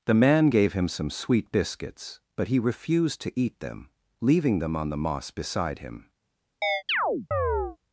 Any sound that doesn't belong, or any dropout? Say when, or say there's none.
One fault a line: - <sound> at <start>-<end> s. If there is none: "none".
- chirp at 6.6-7.8 s